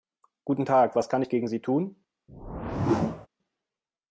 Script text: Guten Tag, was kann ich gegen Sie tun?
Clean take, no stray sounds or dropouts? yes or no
no